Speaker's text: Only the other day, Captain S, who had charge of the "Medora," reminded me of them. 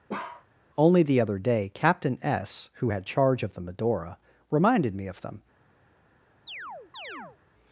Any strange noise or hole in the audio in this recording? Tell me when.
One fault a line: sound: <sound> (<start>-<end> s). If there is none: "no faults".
sound: bark (0.1-0.5 s)
sound: chirp (6.5-7.4 s)